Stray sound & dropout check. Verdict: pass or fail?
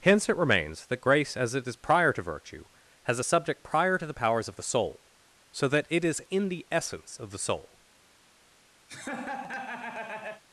fail